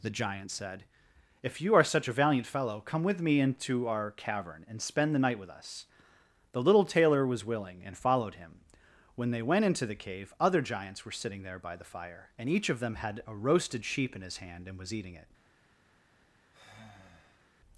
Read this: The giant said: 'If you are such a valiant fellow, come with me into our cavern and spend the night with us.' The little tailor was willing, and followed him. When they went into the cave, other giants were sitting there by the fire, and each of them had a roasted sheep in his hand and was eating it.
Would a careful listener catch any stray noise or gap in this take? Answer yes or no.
yes